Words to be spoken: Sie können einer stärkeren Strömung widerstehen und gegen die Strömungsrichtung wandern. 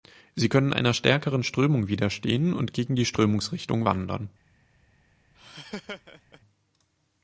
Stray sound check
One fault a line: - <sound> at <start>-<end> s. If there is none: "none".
- laugh at 5.3-6.4 s